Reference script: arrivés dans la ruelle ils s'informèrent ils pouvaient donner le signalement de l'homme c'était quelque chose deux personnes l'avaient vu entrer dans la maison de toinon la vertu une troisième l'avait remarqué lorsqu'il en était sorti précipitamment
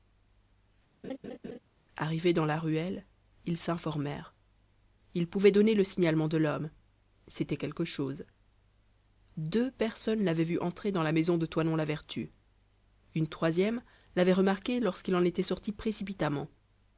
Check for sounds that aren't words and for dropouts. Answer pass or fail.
fail